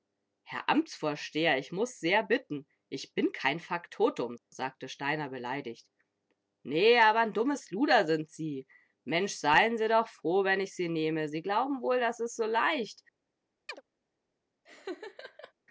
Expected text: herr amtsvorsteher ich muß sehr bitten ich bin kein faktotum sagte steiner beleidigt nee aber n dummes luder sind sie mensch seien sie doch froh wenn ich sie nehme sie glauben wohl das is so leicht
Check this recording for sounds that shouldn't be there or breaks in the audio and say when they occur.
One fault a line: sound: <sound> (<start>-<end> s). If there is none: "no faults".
sound: chirp (13.7-13.8 s)
sound: laugh (14.6-15.5 s)